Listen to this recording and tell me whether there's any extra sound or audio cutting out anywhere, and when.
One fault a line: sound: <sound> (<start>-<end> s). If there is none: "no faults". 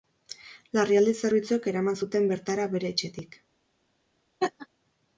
sound: laugh (4.4-4.7 s)